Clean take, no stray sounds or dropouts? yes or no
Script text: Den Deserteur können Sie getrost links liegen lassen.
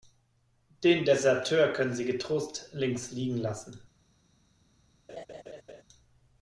no